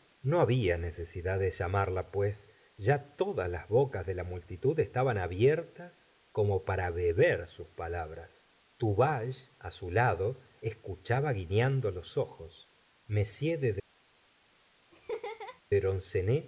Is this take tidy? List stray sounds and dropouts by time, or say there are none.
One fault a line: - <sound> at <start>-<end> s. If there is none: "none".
- laugh at 14.9-15.6 s